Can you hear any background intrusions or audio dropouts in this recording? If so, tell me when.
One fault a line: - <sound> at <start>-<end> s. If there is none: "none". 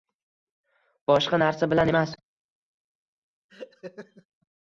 - laugh at 3.5-4.3 s